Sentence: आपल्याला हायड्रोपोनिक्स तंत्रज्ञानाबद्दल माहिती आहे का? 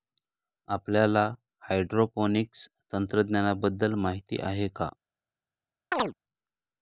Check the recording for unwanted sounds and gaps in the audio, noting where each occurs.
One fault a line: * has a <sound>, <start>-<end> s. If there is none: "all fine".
* has a chirp, 5.9-6.1 s